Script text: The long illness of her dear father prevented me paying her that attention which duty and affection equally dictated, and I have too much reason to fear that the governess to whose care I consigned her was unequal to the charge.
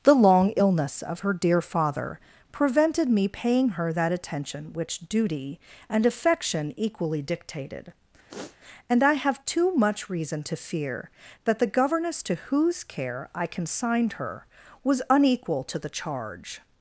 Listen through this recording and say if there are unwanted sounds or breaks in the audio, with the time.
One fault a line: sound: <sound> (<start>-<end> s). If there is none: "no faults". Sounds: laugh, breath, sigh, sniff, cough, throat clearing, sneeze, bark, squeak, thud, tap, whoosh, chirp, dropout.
sound: sniff (8.3-8.6 s)